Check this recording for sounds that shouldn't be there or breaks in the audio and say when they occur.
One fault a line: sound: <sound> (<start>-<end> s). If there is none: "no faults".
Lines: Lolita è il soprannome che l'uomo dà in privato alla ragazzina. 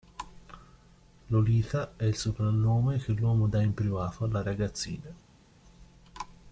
no faults